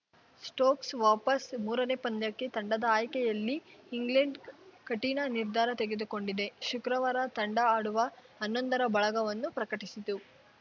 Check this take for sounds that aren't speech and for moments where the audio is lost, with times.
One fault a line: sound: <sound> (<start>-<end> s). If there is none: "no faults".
no faults